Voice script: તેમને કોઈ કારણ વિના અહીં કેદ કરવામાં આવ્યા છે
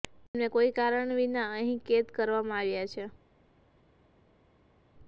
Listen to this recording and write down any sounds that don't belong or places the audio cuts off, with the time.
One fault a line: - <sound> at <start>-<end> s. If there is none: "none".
none